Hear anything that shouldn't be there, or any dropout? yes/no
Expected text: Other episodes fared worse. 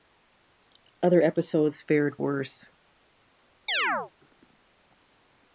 yes